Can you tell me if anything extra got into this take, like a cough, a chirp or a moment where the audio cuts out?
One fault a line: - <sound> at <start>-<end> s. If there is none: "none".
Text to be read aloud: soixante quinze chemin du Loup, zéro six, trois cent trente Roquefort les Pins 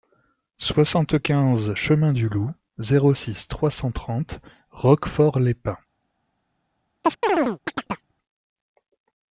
- chirp at 7.0-8.1 s